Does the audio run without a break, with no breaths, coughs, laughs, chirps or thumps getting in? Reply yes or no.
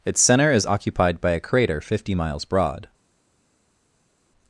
yes